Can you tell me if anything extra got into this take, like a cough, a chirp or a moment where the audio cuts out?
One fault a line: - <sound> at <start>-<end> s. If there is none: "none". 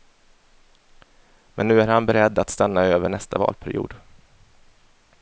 none